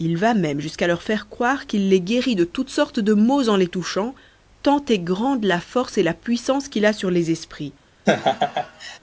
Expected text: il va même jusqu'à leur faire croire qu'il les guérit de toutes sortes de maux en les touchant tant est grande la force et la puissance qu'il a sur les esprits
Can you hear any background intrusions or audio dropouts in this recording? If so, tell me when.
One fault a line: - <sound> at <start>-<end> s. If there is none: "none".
- laugh at 8.1-9.0 s